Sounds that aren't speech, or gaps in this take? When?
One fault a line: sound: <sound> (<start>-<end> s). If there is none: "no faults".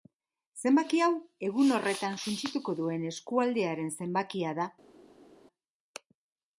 no faults